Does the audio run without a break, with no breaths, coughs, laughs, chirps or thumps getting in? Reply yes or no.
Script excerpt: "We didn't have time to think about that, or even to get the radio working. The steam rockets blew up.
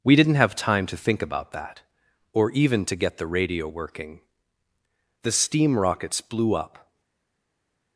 yes